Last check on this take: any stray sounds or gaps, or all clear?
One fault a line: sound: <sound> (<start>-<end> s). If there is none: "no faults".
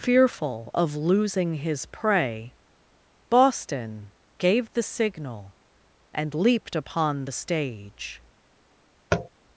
sound: tap (9.1-9.3 s)